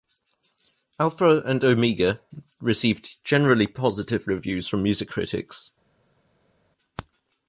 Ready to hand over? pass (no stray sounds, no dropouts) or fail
pass